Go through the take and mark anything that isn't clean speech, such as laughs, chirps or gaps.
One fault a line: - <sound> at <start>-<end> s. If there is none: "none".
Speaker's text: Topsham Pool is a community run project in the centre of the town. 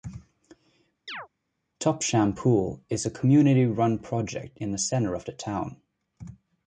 - chirp at 1.1-1.3 s